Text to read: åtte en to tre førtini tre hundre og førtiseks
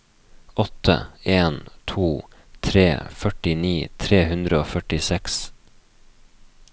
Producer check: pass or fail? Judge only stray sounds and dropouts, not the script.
pass